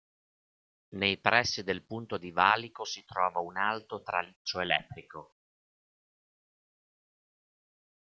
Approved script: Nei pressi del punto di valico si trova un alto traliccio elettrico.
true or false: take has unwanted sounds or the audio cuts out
false